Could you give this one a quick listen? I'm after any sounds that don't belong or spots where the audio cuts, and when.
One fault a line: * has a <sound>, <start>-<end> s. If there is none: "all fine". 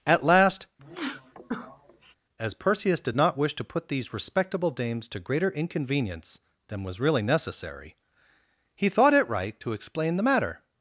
* has a sneeze, 0.8-2.2 s